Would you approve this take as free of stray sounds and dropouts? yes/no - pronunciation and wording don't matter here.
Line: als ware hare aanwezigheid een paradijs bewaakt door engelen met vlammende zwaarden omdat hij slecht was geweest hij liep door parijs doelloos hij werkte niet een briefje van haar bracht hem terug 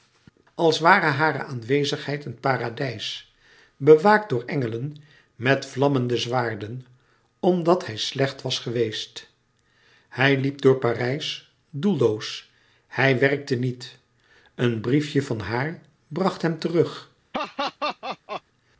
no